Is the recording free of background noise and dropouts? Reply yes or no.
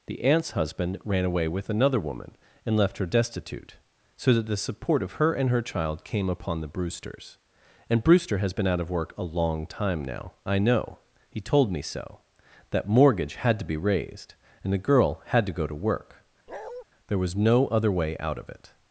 no